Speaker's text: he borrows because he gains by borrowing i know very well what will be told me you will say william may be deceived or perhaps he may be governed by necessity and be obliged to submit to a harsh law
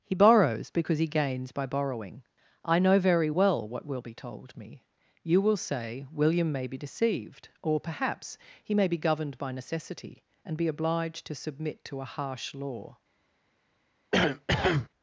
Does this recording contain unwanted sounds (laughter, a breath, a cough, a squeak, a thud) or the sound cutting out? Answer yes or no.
yes